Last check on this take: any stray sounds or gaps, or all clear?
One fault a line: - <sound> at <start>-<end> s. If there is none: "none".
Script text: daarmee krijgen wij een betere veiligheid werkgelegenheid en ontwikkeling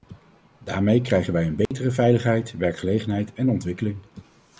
- dropout at 1.7-1.7 s